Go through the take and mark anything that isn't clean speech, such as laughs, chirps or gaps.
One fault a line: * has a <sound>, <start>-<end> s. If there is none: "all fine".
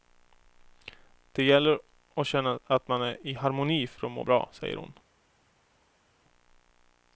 all fine